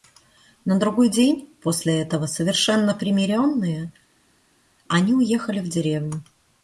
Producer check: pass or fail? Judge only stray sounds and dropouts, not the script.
pass